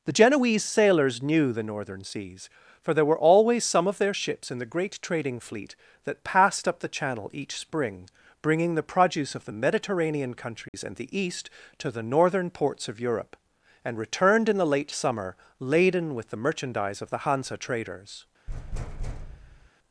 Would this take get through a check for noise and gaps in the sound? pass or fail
fail